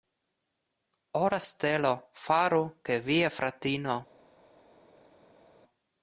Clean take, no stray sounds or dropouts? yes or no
yes